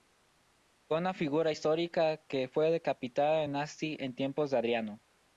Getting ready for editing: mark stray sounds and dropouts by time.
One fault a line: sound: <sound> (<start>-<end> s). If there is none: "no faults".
no faults